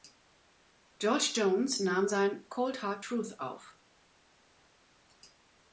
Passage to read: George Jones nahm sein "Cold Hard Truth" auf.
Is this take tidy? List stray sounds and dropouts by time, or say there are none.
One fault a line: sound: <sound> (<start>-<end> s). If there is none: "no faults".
no faults